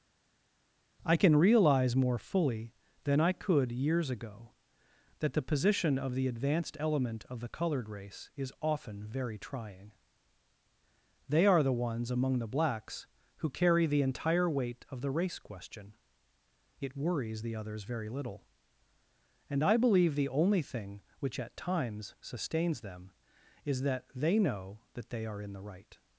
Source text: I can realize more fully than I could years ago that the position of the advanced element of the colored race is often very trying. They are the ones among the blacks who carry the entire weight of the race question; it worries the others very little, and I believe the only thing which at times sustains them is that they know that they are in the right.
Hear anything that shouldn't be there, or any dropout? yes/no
no